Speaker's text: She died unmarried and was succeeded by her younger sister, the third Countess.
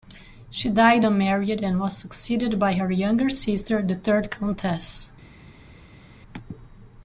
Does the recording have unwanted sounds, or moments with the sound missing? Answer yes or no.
no